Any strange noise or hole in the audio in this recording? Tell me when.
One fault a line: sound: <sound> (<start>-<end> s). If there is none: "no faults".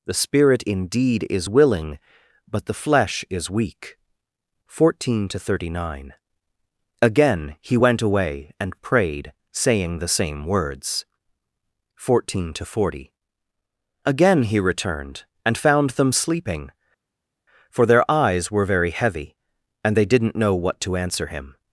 no faults